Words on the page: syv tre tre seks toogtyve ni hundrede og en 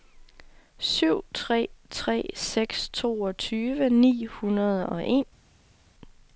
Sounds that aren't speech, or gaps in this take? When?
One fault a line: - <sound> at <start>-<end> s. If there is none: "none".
none